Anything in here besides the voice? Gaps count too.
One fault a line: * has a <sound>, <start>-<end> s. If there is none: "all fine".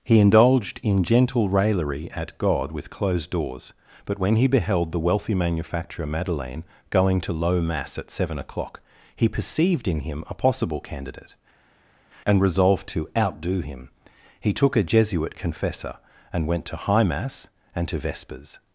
all fine